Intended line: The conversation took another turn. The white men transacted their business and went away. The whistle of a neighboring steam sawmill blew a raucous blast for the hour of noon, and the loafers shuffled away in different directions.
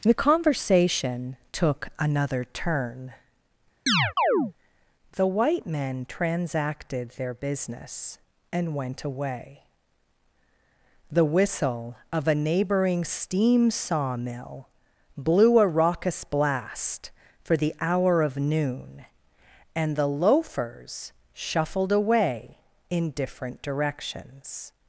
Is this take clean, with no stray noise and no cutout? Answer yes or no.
no